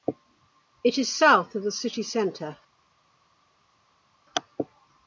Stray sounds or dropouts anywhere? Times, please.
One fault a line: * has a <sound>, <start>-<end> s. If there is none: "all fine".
all fine